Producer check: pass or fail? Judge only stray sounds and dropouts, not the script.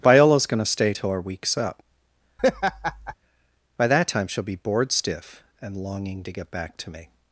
fail